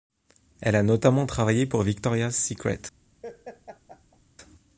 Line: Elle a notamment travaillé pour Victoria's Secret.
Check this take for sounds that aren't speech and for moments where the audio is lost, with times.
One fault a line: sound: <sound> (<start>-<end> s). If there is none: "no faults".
sound: laugh (3.2-4.2 s)